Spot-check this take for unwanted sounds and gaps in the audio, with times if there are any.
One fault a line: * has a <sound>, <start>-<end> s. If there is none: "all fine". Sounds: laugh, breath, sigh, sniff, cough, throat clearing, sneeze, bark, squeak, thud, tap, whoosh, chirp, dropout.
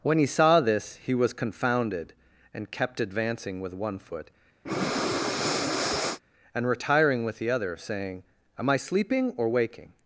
* has a breath, 4.7-6.2 s